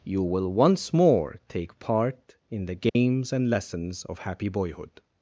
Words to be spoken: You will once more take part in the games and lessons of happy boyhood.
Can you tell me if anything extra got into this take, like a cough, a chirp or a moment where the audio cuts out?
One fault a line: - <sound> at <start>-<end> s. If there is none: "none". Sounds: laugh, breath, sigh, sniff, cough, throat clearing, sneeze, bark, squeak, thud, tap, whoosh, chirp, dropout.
- dropout at 2.9-3.0 s